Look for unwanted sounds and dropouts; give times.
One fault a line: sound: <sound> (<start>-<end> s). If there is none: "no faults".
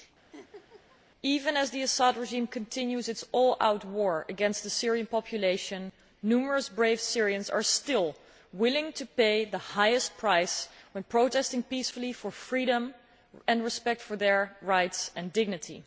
sound: laugh (0.3-1.0 s)